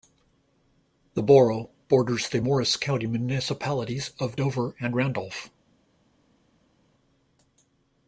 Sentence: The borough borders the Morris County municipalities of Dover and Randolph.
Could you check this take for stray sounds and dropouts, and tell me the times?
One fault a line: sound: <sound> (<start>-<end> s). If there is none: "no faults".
no faults